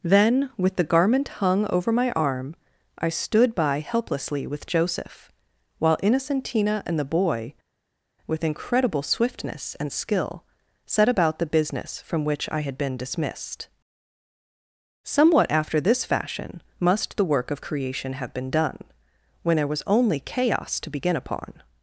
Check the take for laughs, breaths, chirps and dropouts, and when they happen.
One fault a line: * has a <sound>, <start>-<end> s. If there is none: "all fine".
all fine